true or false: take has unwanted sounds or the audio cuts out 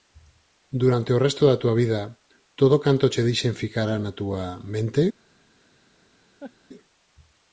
true